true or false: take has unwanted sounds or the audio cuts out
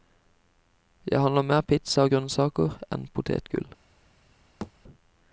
true